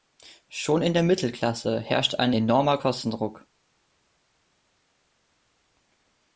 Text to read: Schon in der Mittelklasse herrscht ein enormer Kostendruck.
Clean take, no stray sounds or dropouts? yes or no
yes